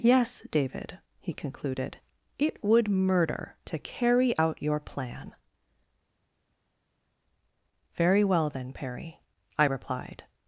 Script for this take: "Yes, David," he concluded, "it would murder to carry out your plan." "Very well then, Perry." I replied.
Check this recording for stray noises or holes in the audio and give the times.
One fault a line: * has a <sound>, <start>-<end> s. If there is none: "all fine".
all fine